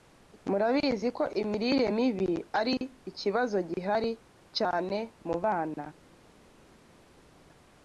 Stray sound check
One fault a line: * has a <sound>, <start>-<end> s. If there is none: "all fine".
all fine